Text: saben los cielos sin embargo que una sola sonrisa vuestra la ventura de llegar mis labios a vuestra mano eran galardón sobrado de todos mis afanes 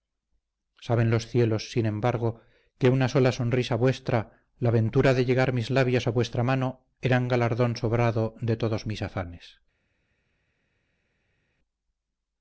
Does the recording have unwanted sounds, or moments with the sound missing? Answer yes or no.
no